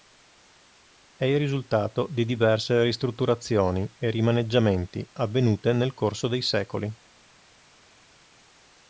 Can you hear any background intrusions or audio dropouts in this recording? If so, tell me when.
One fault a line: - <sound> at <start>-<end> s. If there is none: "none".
none